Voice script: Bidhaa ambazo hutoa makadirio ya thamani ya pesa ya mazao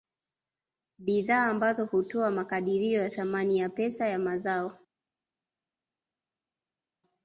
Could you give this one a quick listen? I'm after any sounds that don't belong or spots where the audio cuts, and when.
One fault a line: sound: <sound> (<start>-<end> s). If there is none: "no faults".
no faults